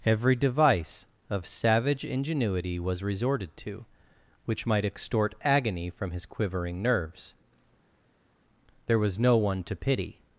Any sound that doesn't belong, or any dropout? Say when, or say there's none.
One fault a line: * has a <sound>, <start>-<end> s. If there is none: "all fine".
all fine